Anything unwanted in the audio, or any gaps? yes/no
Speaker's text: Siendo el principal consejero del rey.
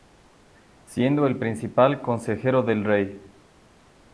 no